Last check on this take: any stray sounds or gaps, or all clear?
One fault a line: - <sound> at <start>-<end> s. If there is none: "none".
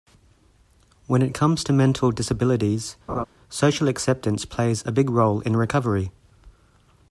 - laugh at 3.1-3.2 s